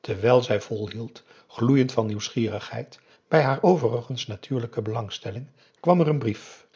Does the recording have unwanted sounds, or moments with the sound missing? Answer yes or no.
no